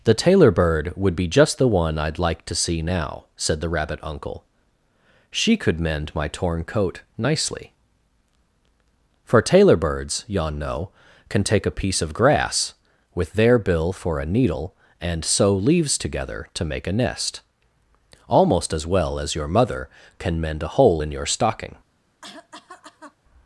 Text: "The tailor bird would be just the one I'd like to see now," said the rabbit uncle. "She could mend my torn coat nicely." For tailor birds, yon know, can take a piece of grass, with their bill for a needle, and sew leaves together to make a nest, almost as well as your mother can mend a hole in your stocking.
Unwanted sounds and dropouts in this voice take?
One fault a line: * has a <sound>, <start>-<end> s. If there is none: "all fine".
* has a cough, 22.2-23.2 s